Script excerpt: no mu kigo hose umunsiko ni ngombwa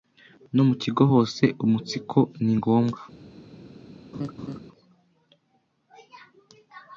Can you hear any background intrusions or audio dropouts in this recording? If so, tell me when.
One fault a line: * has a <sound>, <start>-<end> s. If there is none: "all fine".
* has a laugh, 4.1-4.6 s